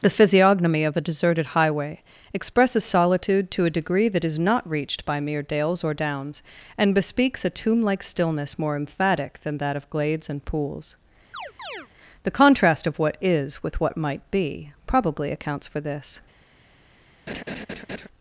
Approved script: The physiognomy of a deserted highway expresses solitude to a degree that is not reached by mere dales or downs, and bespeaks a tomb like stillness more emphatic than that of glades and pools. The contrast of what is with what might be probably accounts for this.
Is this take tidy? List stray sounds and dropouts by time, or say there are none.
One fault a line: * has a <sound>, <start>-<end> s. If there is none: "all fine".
* has a chirp, 11.3-11.9 s
* has a laugh, 17.3-18.1 s